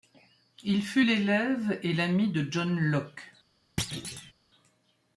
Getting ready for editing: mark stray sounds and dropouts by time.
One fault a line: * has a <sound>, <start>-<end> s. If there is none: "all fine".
* has a thud, 3.8-4.3 s